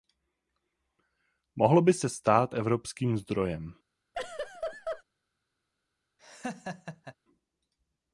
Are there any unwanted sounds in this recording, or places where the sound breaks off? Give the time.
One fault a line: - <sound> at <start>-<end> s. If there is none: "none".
- laugh at 4.1-5.0 s
- laugh at 6.2-7.1 s